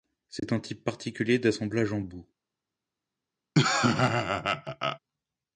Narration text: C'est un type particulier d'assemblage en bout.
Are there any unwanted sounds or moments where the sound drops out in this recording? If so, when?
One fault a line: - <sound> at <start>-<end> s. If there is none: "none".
- dropout at 0.4-0.4 s
- laugh at 3.5-5.0 s